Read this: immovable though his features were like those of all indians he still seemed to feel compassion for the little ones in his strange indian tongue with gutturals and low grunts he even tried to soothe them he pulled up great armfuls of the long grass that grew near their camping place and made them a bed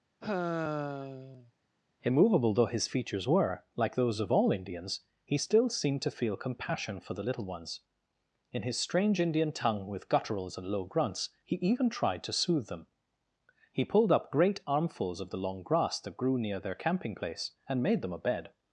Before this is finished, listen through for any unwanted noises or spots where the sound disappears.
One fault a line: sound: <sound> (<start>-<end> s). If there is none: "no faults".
sound: sigh (0.2-1.5 s)